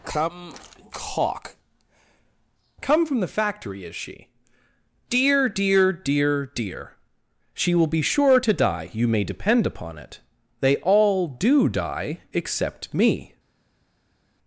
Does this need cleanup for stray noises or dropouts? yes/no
no